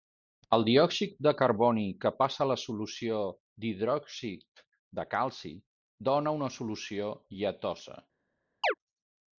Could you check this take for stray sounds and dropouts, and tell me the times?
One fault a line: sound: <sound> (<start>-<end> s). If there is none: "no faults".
sound: chirp (8.6-8.7 s)